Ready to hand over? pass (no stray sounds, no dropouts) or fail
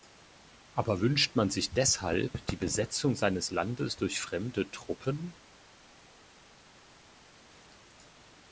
pass